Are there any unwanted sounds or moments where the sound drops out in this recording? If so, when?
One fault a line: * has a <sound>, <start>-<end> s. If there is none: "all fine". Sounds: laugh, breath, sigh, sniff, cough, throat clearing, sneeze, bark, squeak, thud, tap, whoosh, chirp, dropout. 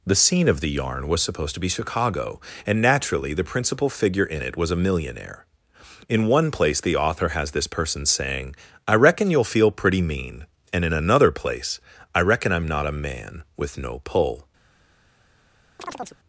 * has a chirp, 15.8-16.2 s